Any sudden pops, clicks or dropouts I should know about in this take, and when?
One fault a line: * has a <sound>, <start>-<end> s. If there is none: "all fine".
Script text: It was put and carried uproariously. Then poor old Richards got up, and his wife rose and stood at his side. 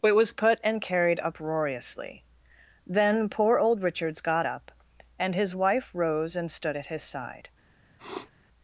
* has a sniff, 8.0-8.3 s